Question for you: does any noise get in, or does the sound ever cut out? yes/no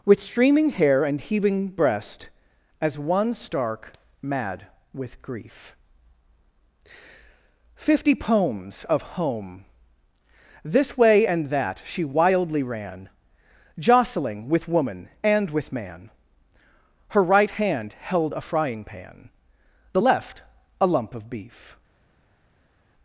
no